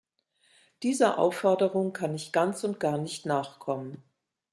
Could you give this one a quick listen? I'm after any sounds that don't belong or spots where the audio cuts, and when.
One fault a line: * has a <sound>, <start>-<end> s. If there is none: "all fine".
all fine